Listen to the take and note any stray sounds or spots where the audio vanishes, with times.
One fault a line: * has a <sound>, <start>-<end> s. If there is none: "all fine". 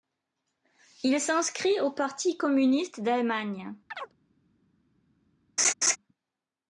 * has a chirp, 3.9-4.1 s
* has a laugh, 5.6-6.0 s